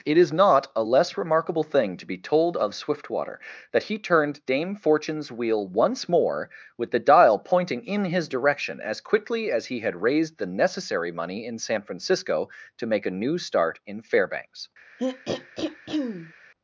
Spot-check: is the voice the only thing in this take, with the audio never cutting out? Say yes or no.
no